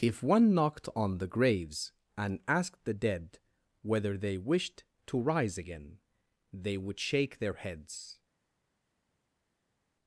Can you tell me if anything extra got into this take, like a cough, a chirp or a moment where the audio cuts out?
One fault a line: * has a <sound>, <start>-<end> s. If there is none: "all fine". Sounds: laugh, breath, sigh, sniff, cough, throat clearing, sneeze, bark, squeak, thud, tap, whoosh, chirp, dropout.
all fine